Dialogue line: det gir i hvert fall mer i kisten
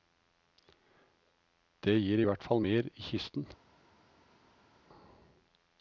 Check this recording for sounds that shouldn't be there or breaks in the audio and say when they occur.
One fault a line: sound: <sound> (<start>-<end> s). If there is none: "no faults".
no faults